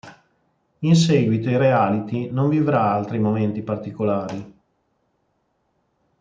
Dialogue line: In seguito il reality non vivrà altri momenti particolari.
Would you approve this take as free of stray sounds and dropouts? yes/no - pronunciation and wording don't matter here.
yes